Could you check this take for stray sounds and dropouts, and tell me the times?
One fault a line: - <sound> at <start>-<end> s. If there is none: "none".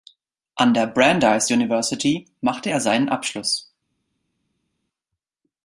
none